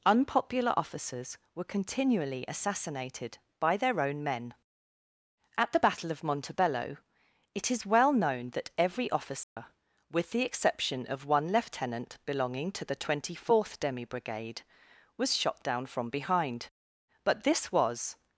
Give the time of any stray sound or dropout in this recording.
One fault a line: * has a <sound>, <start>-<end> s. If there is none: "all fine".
* has a dropout, 9.4-9.6 s